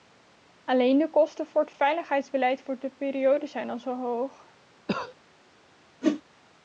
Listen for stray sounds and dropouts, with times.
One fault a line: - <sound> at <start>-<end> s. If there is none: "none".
- cough at 4.9-5.1 s
- whoosh at 6.0-6.2 s